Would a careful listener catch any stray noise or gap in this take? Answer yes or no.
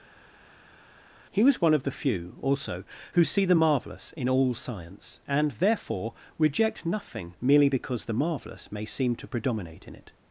no